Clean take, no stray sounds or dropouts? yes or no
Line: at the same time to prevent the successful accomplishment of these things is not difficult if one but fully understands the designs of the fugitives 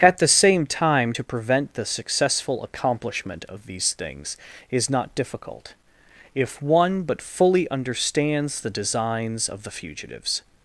yes